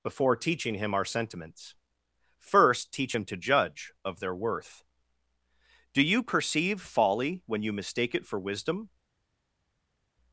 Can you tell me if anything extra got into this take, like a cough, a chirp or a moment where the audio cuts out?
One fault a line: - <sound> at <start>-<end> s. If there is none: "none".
none